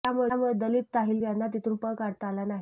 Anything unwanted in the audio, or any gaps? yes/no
no